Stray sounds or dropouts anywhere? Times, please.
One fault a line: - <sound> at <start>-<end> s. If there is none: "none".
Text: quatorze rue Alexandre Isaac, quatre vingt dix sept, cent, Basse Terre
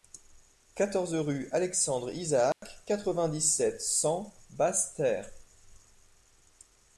- dropout at 2.5-2.6 s